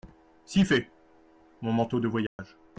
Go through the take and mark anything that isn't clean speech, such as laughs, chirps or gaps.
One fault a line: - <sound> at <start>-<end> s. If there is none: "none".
- dropout at 2.3-2.4 s